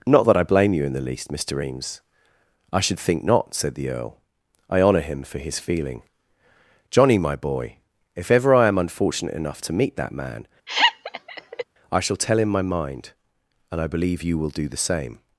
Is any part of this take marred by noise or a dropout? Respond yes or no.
yes